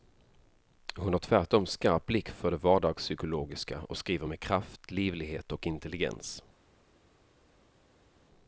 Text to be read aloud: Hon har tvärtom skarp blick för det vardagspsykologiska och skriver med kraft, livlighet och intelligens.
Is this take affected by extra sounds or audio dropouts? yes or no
no